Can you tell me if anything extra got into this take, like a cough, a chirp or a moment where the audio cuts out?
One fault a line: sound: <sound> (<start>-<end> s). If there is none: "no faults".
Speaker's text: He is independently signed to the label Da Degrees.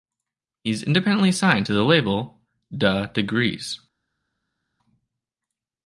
no faults